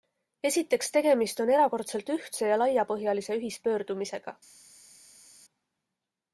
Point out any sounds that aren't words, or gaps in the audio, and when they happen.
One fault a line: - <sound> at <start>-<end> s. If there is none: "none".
none